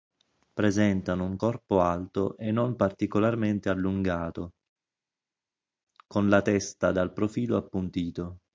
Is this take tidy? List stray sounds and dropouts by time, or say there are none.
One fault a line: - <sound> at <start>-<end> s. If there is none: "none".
none